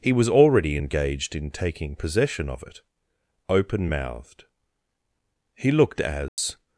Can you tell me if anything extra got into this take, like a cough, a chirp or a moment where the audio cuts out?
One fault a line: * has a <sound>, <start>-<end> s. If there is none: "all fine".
* has a dropout, 6.3-6.4 s